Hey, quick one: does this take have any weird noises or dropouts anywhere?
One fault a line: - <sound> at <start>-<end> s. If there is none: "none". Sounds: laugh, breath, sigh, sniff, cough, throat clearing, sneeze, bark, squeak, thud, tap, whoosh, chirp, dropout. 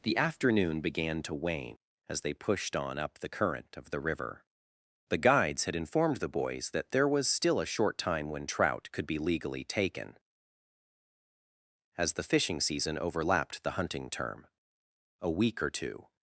none